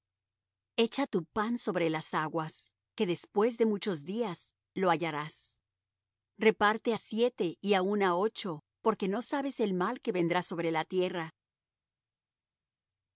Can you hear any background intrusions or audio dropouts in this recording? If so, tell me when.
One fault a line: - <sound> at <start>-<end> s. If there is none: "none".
none